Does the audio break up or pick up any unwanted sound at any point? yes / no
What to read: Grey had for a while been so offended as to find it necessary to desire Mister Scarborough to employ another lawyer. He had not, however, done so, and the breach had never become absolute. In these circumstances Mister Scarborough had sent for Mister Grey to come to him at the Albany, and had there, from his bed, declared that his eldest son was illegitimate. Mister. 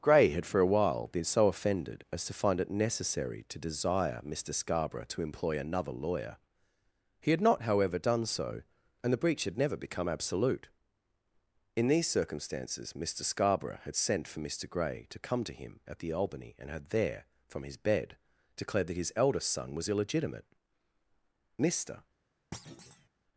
yes